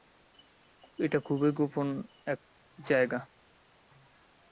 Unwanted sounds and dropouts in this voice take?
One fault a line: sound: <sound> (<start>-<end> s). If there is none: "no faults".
no faults